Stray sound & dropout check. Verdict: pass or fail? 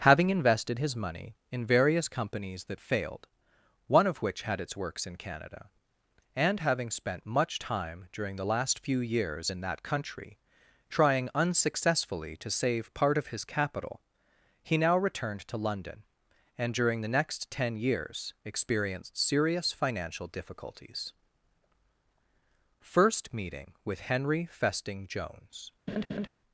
fail